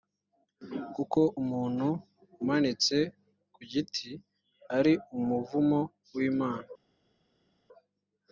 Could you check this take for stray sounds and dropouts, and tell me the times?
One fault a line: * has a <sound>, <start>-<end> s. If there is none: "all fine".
all fine